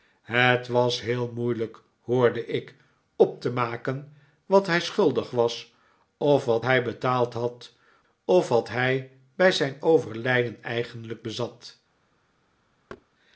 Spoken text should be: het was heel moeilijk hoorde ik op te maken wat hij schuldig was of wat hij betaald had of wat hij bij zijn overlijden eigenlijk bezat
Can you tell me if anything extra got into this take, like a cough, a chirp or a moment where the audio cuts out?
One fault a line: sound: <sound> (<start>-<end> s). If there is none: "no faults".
sound: thud (12.9-13.1 s)